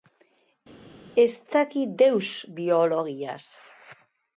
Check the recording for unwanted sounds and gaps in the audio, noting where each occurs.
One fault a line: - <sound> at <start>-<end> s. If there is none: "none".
none